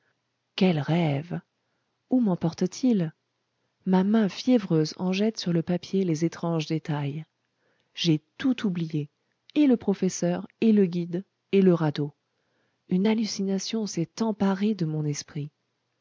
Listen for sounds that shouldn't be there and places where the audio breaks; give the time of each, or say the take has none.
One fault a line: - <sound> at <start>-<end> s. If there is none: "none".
none